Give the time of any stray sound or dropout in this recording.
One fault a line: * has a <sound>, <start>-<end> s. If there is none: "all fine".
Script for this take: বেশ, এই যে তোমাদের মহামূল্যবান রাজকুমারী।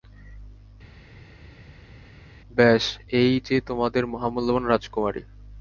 all fine